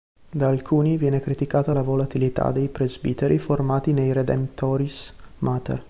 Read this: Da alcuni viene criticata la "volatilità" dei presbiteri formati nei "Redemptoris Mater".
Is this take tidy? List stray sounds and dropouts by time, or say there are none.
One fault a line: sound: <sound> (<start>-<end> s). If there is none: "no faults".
no faults